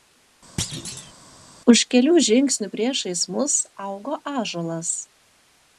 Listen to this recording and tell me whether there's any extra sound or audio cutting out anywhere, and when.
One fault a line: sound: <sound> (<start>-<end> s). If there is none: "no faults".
sound: thud (0.6-1.1 s)